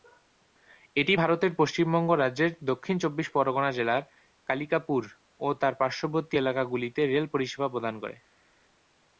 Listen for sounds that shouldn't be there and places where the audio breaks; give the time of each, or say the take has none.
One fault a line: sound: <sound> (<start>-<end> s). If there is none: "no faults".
no faults